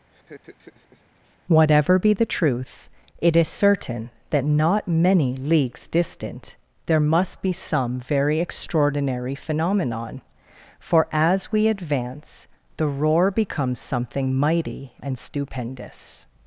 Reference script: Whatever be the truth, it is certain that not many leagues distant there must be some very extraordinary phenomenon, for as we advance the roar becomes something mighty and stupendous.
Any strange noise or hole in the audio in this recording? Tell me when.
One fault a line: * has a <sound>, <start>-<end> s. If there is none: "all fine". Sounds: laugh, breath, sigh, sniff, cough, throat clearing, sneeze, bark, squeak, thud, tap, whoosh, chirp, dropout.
* has a laugh, 0.1-1.4 s